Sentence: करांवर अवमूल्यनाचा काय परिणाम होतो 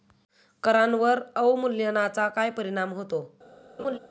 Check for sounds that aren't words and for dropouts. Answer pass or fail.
fail